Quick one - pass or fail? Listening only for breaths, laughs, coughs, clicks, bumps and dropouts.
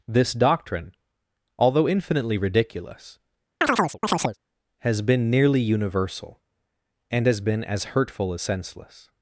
fail